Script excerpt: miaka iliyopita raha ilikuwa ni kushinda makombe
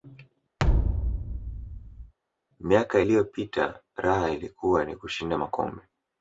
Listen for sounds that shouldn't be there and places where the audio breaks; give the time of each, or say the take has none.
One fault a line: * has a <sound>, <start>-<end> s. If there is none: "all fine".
* has a thud, 0.6-2.1 s